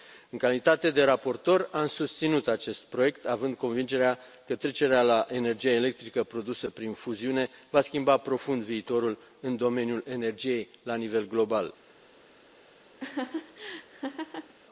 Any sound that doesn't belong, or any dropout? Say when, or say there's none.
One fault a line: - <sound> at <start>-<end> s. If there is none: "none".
- laugh at 13.0-14.5 s